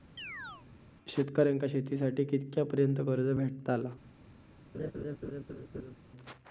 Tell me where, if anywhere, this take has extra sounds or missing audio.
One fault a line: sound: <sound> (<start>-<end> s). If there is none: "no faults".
sound: chirp (0.2-0.7 s)
sound: laugh (4.7-6.0 s)